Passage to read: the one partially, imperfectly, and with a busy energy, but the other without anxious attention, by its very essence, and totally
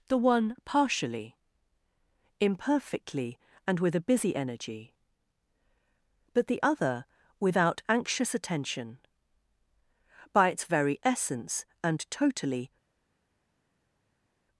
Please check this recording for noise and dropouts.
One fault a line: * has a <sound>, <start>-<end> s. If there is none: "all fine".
all fine